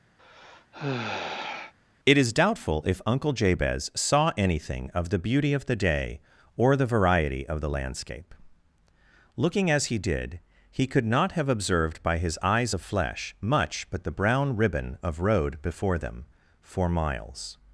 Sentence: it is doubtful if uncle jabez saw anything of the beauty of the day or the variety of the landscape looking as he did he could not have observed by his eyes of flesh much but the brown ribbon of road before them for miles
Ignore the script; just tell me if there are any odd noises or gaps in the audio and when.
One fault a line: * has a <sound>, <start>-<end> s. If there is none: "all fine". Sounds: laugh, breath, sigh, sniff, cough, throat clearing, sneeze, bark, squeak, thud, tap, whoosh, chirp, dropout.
* has a sigh, 0.2-1.7 s